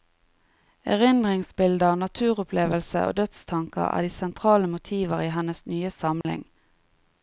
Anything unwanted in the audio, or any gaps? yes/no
yes